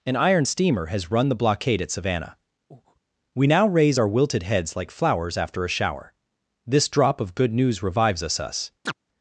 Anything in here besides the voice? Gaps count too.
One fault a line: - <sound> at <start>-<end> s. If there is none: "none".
- breath at 2.7-3.0 s
- chirp at 8.9-8.9 s